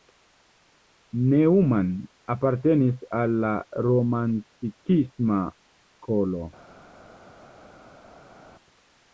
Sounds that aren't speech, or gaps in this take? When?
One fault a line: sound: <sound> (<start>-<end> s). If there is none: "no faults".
no faults